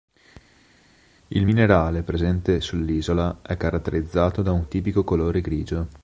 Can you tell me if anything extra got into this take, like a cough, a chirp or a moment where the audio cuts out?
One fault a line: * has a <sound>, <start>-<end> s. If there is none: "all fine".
all fine